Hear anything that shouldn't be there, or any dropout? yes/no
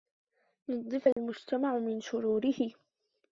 yes